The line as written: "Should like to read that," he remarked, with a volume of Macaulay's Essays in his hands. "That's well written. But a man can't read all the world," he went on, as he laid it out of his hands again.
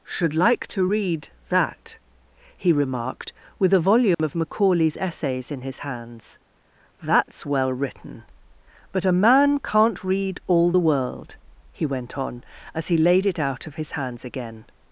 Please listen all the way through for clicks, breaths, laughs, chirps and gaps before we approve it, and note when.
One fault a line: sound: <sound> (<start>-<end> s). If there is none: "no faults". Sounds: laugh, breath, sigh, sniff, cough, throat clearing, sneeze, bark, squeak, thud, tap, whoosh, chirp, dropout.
sound: dropout (4.1-4.2 s)